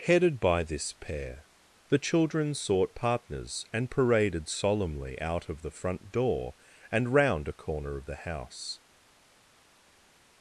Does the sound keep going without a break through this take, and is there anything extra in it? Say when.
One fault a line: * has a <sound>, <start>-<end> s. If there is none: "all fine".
all fine